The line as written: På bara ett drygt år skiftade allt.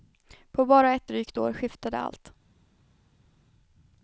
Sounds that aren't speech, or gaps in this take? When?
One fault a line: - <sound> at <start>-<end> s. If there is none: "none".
none